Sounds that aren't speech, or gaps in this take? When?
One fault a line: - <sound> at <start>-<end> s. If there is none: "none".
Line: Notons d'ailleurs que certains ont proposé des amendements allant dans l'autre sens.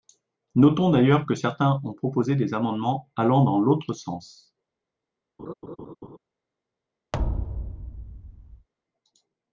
- laugh at 5.4-6.2 s
- thud at 7.1-8.7 s